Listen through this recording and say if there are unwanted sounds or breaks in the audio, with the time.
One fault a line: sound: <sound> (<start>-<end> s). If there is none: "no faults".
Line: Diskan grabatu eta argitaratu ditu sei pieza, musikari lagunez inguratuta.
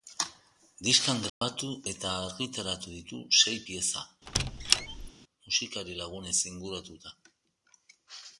sound: dropout (1.3-1.4 s)
sound: squeak (4.3-5.1 s)